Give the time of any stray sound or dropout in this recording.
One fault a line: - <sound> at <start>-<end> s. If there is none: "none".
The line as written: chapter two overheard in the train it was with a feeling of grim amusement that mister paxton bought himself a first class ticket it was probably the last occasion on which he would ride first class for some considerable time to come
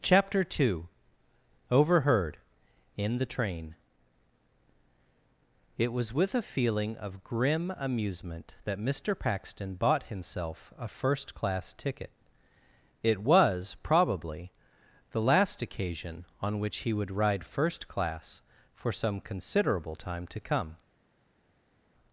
none